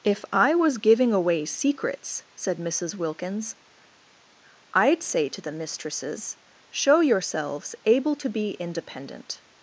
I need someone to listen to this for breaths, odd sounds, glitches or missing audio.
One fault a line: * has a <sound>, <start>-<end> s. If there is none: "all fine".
all fine